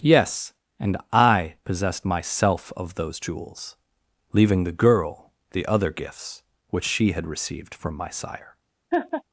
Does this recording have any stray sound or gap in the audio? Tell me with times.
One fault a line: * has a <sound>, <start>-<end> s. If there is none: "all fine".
* has a laugh, 8.9-9.2 s